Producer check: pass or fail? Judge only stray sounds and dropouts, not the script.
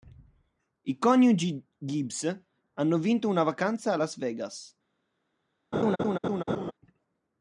fail